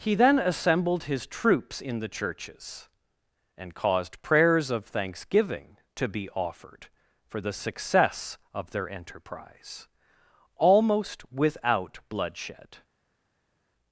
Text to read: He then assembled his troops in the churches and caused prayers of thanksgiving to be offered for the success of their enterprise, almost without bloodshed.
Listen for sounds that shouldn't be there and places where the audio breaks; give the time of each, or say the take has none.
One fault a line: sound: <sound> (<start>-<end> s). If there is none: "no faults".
no faults